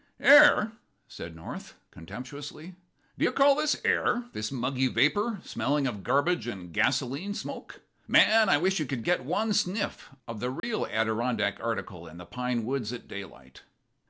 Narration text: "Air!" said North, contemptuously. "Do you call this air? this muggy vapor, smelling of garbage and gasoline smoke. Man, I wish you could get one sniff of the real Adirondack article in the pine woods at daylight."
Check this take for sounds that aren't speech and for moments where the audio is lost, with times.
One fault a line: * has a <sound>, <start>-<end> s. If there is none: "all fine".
* has a dropout, 10.6-10.6 s